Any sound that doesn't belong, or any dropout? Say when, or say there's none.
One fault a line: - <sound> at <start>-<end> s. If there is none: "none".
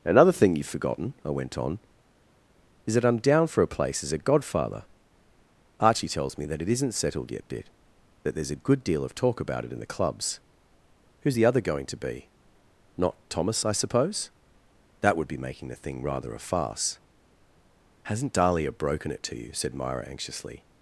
none